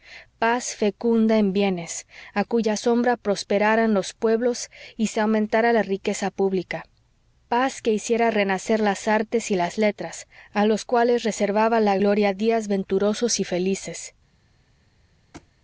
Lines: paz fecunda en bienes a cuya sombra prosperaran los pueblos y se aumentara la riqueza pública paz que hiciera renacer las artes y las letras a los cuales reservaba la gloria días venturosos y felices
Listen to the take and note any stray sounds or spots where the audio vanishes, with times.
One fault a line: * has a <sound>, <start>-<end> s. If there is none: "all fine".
* has a thud, 15.3-15.5 s